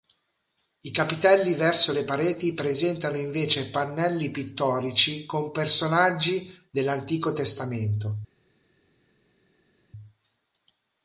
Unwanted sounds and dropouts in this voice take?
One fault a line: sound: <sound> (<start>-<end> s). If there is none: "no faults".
no faults